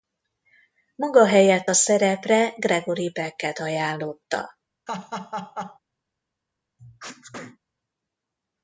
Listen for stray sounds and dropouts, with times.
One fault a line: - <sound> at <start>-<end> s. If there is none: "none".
- laugh at 4.9-5.8 s
- sneeze at 6.8-7.6 s